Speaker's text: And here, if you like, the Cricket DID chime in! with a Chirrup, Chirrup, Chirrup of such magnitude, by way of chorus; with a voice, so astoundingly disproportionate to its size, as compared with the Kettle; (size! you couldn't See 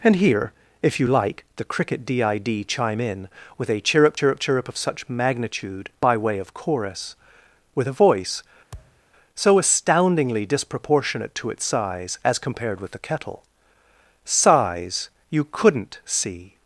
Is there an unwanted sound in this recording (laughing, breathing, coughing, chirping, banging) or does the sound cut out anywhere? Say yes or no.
yes